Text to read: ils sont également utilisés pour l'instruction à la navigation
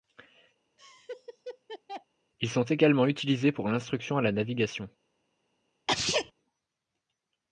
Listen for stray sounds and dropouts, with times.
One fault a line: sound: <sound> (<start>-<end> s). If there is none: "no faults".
sound: laugh (0.8-2.1 s)
sound: sneeze (5.9-6.3 s)